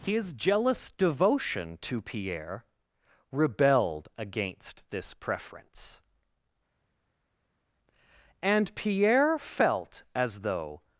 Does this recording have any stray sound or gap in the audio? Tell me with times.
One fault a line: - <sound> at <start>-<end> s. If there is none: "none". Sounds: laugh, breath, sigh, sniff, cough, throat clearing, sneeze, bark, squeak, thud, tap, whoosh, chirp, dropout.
none